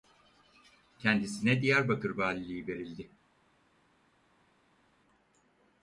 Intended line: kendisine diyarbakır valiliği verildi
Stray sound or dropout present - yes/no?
no